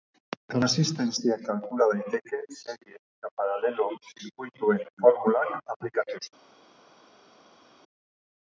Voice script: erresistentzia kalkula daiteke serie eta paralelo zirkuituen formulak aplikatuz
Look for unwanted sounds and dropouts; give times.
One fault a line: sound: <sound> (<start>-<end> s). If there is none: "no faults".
no faults